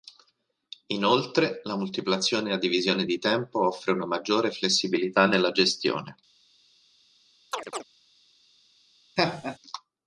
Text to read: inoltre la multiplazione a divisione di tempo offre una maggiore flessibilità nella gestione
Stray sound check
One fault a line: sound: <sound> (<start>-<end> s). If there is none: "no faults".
sound: chirp (7.5-7.8 s)
sound: laugh (9.2-9.6 s)